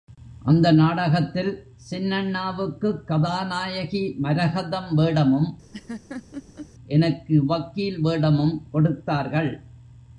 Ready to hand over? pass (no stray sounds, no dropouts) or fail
fail